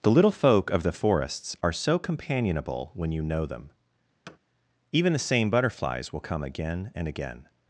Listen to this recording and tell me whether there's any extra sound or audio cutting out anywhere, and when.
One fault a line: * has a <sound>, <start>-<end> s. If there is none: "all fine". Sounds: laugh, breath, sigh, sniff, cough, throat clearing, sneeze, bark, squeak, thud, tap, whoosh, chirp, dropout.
* has a thud, 4.3-4.4 s